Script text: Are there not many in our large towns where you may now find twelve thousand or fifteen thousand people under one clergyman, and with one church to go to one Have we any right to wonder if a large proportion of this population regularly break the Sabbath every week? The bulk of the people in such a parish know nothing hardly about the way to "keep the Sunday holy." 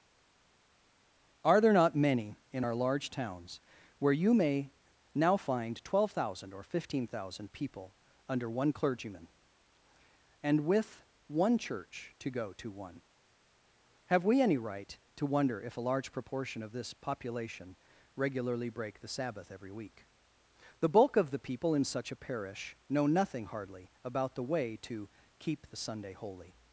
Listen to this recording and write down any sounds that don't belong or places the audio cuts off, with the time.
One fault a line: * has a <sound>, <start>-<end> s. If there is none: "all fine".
all fine